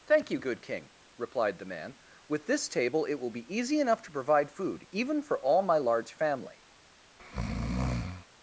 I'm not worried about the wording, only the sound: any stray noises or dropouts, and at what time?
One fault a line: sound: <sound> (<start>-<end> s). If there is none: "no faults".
sound: breath (7.2-8.3 s)